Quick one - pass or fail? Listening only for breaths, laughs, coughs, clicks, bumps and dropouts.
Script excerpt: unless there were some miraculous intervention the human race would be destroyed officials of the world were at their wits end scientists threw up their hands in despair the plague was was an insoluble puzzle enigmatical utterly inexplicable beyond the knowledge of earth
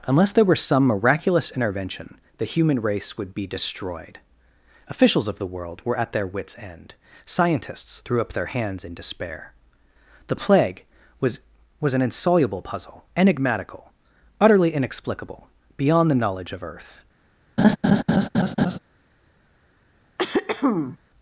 fail